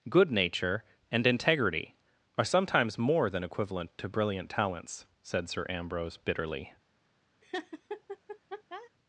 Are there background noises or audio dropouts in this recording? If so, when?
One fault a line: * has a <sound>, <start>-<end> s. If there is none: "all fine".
* has a laugh, 7.4-8.9 s